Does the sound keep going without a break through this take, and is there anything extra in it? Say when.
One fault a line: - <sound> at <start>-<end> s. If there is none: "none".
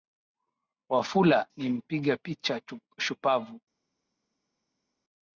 none